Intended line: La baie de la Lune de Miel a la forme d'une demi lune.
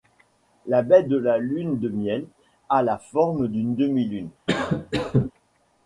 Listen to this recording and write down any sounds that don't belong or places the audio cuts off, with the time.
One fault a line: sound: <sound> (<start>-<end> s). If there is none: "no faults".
sound: cough (4.5-5.3 s)